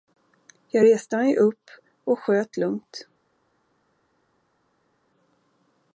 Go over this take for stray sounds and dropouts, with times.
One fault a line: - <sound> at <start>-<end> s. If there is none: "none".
none